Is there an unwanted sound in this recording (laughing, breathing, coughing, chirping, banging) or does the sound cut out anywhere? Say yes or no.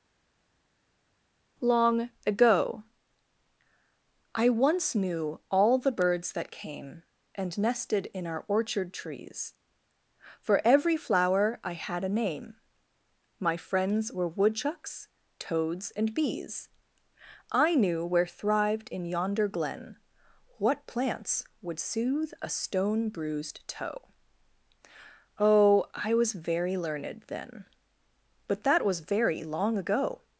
no